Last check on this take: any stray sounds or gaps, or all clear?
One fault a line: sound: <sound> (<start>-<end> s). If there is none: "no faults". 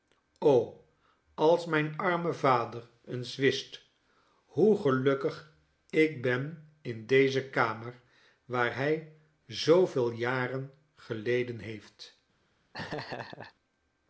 sound: laugh (12.7-13.5 s)